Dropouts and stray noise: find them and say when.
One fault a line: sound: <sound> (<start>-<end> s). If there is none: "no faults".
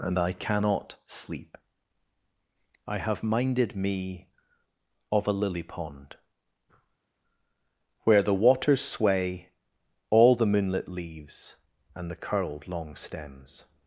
no faults